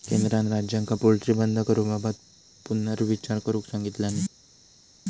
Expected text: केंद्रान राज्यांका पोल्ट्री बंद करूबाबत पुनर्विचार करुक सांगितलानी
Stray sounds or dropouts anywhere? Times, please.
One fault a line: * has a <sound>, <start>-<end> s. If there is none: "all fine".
all fine